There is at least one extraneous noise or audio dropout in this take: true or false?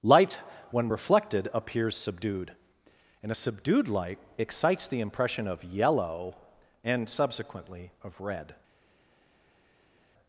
false